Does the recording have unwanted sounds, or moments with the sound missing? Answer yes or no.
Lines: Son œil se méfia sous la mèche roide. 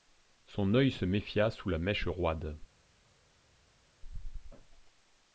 no